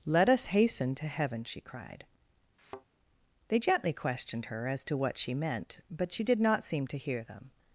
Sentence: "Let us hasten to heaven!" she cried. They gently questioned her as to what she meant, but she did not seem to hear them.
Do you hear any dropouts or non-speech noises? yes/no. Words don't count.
yes